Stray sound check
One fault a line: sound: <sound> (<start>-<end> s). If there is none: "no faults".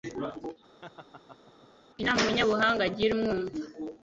sound: laugh (0.8-1.7 s)